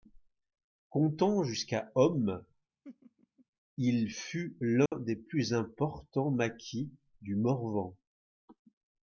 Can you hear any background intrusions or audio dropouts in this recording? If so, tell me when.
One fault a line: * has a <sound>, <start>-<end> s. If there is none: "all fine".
* has a laugh, 2.8-3.5 s
* has a dropout, 4.9-4.9 s